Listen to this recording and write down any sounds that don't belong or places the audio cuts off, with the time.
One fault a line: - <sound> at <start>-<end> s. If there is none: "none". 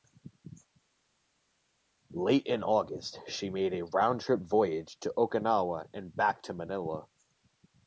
none